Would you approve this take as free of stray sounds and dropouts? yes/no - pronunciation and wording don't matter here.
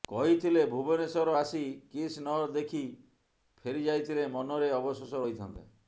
yes